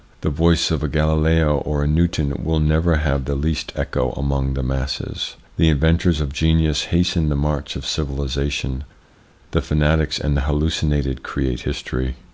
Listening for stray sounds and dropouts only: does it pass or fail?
pass